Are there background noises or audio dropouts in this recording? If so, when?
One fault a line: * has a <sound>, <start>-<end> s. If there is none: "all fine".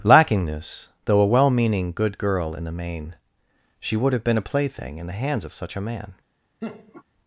* has a laugh, 6.6-7.0 s